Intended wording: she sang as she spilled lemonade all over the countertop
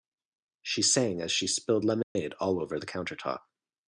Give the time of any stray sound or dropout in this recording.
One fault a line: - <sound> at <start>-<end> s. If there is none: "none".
- dropout at 2.0-2.2 s